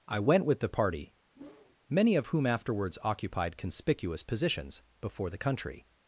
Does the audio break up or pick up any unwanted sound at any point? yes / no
yes